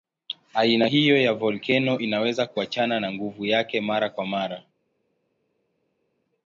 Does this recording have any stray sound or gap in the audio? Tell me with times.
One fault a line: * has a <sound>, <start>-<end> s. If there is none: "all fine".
all fine